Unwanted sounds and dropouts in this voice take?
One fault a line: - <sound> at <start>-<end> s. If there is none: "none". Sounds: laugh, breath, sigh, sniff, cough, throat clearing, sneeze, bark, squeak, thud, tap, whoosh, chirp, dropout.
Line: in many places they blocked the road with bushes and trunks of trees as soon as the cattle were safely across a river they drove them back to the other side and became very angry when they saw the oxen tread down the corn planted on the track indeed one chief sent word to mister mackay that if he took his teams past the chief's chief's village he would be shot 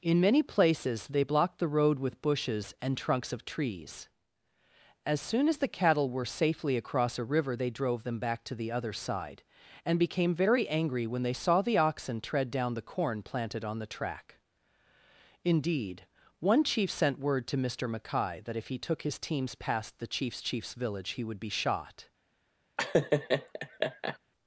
- laugh at 22.8-24.2 s